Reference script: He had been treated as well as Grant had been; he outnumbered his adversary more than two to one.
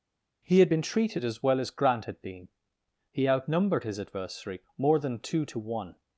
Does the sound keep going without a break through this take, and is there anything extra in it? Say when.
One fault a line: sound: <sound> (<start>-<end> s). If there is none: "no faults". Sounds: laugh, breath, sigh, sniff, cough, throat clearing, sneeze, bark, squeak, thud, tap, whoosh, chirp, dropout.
no faults